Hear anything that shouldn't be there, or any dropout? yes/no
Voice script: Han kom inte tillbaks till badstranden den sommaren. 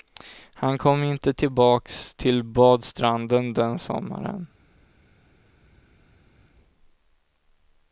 no